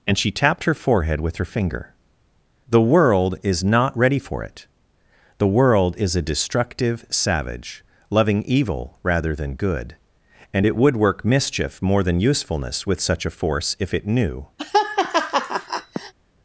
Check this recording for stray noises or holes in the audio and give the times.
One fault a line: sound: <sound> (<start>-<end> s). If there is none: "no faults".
sound: laugh (14.6-16.1 s)